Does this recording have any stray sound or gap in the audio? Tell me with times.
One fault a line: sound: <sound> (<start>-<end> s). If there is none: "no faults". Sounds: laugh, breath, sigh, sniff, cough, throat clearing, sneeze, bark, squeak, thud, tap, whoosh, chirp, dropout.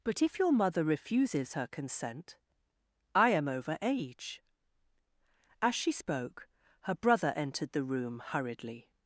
no faults